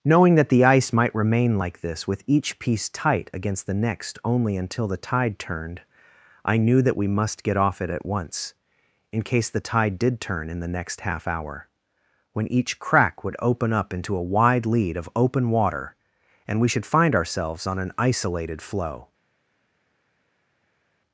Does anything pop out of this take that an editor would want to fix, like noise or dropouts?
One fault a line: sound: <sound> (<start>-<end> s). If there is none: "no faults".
no faults